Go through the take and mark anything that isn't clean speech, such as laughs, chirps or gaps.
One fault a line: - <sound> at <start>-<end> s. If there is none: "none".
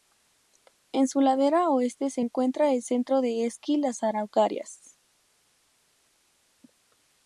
none